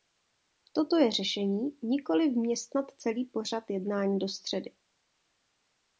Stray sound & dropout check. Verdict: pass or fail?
pass